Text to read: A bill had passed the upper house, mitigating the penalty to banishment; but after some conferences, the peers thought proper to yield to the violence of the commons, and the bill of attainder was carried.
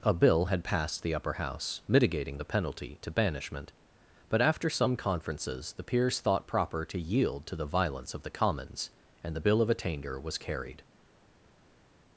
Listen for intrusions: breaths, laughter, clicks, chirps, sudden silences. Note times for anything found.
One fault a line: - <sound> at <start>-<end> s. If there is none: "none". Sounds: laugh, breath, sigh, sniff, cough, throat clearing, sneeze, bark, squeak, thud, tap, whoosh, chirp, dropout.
none